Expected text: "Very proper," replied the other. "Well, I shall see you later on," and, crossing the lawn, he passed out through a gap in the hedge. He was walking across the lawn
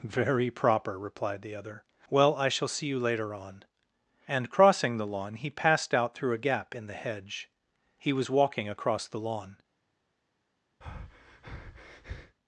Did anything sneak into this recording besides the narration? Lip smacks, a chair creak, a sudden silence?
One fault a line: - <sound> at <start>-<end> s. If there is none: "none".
- breath at 10.8-12.4 s